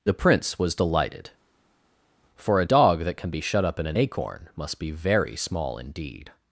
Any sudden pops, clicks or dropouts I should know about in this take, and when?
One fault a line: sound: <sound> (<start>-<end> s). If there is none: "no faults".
no faults